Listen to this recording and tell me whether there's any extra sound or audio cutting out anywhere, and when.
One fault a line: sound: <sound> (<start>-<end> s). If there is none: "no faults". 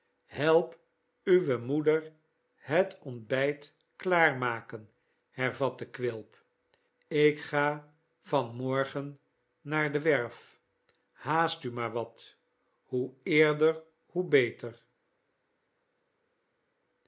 no faults